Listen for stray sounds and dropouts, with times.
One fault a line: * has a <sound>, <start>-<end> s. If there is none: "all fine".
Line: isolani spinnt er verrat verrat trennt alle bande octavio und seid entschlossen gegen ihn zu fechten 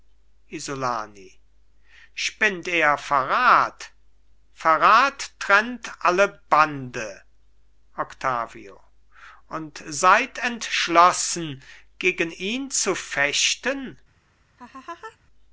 * has a laugh, 14.6-15.2 s